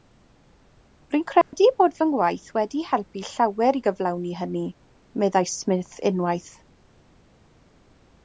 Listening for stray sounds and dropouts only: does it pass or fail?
fail